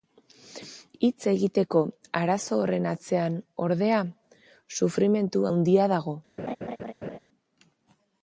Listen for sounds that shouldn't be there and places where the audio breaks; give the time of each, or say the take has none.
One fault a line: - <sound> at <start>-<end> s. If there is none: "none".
- laugh at 6.4-7.2 s